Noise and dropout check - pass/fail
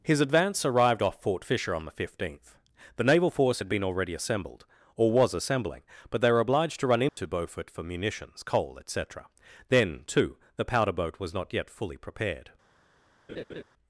fail